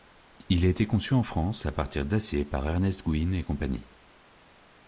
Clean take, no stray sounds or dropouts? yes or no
yes